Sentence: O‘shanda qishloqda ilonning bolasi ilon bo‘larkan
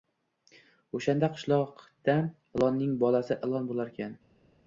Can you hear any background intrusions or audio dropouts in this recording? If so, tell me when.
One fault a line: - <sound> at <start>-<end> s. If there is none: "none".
none